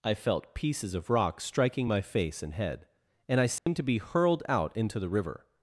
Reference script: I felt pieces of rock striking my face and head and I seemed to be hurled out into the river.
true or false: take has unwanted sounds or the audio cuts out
true